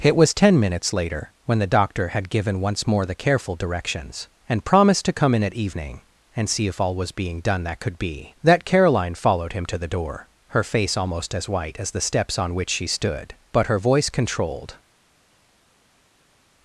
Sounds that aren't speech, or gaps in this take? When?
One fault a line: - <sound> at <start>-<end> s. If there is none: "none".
none